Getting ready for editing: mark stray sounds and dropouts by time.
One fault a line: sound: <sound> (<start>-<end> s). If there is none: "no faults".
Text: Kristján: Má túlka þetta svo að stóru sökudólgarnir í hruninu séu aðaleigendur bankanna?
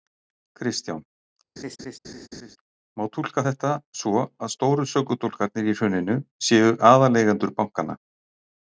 sound: laugh (1.6-2.6 s)